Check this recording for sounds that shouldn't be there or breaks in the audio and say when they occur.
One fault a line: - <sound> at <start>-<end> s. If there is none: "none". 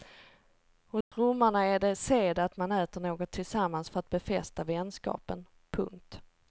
- dropout at 1.0-1.1 s